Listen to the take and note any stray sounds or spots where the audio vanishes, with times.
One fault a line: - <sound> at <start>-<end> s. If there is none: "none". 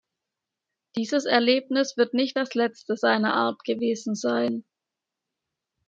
none